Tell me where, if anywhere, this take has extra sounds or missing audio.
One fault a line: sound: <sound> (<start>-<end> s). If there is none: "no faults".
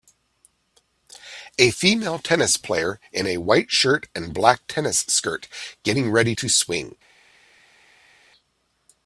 no faults